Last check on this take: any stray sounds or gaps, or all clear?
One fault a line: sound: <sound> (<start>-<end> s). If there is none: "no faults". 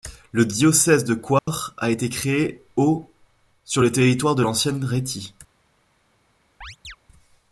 sound: dropout (1.4-1.5 s)
sound: chirp (6.6-7.0 s)